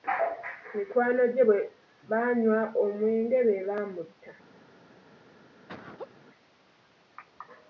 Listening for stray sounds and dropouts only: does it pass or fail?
fail